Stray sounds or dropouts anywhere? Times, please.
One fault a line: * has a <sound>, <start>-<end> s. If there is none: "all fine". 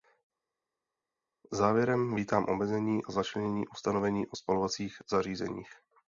all fine